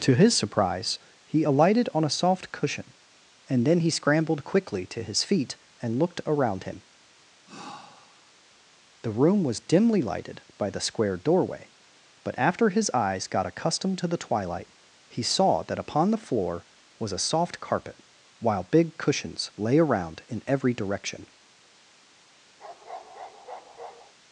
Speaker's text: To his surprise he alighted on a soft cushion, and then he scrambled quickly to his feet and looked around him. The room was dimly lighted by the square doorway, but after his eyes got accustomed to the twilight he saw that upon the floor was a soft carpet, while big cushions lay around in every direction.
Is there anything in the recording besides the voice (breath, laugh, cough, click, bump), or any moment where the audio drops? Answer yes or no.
yes